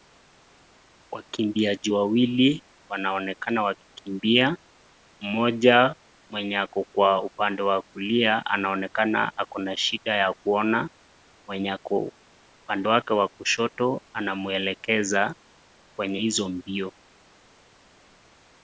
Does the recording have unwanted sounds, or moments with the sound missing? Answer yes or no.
no